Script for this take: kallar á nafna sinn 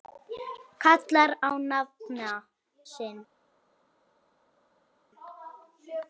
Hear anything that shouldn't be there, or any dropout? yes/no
no